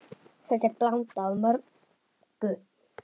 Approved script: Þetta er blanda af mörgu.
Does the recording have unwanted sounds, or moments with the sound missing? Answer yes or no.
no